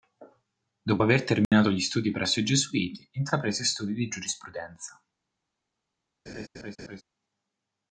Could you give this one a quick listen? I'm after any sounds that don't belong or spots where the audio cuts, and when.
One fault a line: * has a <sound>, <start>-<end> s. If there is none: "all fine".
* has a dropout, 1.4-1.5 s
* has a laugh, 6.3-7.0 s